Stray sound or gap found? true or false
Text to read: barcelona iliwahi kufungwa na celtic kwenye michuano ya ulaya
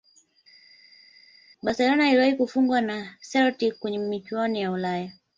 false